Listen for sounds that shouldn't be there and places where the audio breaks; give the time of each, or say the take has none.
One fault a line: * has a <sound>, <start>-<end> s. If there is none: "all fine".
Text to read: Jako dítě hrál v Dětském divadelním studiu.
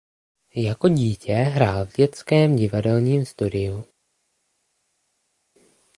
all fine